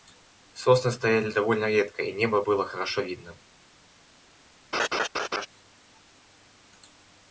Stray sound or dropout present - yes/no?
yes